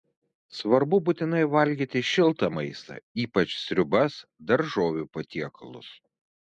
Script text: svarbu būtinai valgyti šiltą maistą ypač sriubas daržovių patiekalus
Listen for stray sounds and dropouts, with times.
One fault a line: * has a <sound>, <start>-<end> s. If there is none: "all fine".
all fine